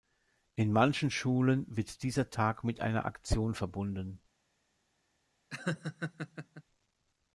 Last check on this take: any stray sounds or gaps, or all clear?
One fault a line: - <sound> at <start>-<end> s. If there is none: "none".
- laugh at 5.5-6.6 s